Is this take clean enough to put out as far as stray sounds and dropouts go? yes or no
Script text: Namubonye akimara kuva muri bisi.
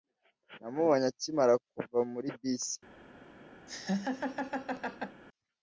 no